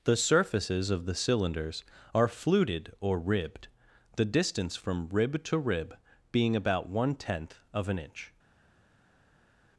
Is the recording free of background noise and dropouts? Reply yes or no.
yes